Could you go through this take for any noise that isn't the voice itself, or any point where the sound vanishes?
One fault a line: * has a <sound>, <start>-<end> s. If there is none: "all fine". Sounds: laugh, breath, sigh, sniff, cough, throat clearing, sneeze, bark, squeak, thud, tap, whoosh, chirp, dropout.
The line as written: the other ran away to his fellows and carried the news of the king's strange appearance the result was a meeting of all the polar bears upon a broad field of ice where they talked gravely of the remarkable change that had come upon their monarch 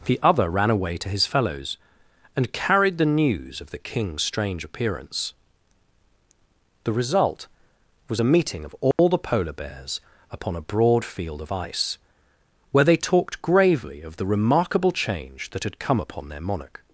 * has a dropout, 8.9-9.0 s